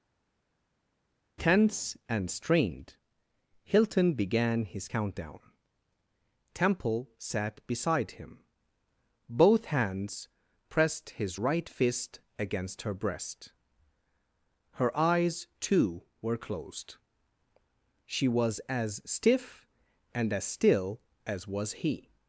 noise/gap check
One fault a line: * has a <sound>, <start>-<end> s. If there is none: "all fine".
all fine